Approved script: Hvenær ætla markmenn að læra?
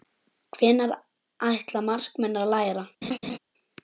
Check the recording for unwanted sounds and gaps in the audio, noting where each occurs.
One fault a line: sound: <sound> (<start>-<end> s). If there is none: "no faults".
sound: laugh (3.0-3.4 s)